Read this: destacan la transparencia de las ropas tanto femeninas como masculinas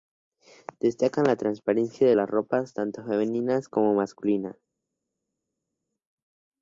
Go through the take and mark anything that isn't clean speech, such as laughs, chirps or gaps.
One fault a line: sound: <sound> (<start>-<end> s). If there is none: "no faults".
no faults